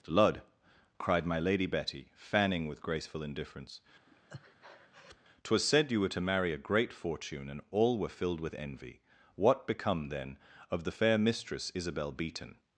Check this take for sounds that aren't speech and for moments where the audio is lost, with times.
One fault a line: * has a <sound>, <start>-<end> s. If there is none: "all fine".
* has a breath, 4.1-5.2 s